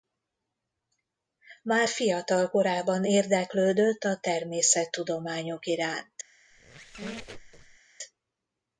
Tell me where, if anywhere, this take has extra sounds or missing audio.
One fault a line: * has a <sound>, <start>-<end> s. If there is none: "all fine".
* has a squeak, 6.5-7.8 s